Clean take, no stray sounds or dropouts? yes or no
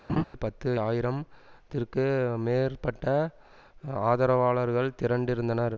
no